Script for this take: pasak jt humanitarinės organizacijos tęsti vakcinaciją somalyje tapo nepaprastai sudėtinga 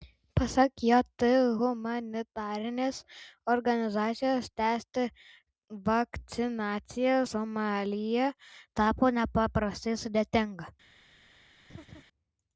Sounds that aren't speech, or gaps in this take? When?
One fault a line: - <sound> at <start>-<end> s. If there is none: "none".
- laugh at 11.7-12.0 s